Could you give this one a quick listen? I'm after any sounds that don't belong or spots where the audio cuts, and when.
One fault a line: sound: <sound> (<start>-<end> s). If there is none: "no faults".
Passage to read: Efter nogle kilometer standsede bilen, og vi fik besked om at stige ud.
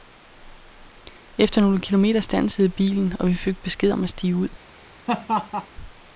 sound: laugh (5.1-5.7 s)